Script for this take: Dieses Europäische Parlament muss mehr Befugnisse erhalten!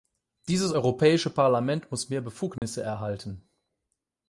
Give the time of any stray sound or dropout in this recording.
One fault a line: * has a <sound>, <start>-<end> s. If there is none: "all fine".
* has a dropout, 2.6-2.6 s